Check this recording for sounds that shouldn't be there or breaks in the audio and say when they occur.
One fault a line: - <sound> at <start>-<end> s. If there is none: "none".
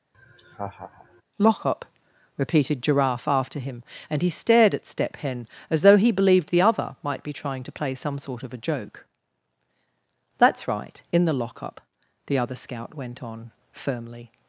- laugh at 0.1-1.2 s